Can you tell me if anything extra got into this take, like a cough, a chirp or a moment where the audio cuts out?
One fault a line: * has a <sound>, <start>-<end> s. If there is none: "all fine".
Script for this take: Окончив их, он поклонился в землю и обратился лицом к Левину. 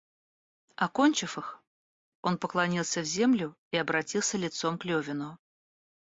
all fine